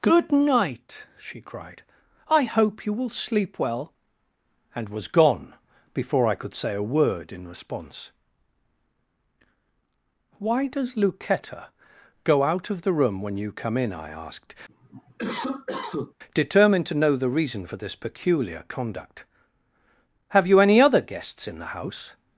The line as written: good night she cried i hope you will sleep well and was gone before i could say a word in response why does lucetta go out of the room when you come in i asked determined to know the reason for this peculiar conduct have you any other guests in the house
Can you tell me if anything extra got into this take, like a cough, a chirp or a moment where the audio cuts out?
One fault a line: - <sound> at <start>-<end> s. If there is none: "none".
- cough at 14.7-16.1 s